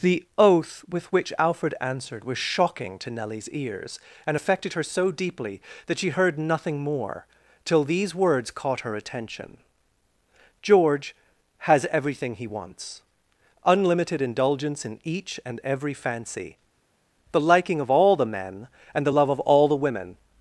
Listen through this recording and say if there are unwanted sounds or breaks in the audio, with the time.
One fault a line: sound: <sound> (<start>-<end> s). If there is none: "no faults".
no faults